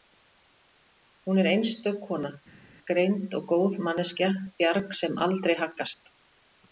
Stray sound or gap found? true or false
false